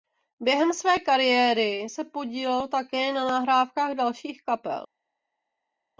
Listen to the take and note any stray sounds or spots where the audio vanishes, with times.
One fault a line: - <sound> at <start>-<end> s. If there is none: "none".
none